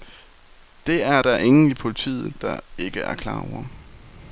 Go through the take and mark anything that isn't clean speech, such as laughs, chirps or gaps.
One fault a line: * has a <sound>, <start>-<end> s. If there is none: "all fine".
all fine